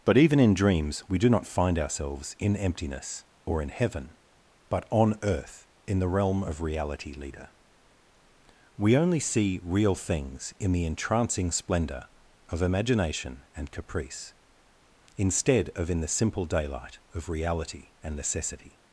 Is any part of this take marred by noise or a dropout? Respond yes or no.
no